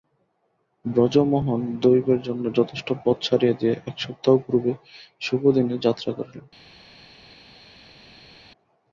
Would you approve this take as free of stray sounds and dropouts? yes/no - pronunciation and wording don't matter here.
yes